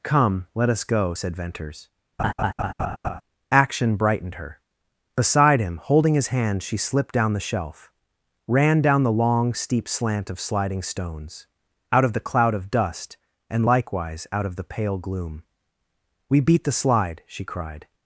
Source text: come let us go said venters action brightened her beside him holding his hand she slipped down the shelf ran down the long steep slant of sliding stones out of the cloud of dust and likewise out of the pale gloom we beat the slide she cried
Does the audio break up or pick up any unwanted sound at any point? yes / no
yes